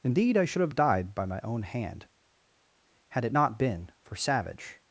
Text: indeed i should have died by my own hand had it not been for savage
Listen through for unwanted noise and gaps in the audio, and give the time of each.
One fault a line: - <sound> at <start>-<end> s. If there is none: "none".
none